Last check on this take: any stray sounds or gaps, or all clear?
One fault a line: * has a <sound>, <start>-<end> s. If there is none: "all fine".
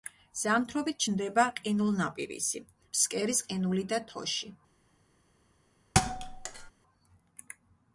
* has a thud, 5.9-6.7 s